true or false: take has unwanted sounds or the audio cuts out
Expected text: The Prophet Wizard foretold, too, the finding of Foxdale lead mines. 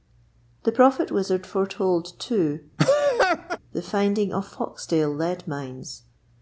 true